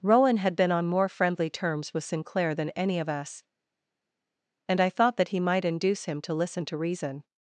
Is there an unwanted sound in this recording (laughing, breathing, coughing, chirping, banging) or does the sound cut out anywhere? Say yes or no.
no